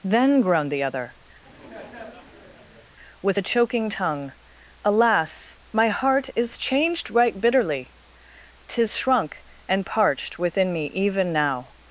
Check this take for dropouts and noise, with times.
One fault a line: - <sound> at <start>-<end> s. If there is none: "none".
- laugh at 1.4-2.9 s